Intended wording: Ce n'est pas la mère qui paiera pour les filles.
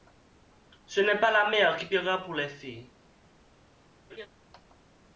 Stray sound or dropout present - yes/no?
yes